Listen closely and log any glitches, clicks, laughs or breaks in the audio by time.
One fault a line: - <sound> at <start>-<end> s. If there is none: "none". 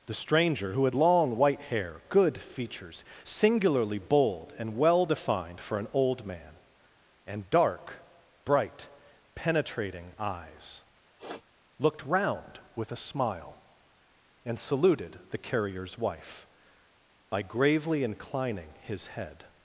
- sniff at 11.2-11.4 s